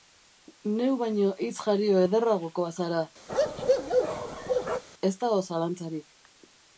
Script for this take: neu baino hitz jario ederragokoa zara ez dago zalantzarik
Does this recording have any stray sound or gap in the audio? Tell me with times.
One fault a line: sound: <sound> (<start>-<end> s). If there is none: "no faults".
sound: bark (3.3-4.8 s)